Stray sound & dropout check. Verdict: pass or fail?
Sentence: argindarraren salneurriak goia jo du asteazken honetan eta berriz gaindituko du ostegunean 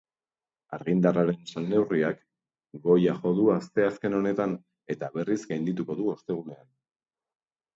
pass